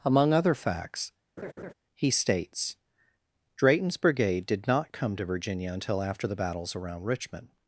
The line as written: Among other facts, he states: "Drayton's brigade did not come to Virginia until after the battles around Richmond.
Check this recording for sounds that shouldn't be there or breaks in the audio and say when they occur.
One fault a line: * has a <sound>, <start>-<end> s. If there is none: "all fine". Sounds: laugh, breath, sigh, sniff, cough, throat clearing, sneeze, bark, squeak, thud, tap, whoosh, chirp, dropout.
* has a laugh, 1.4-1.7 s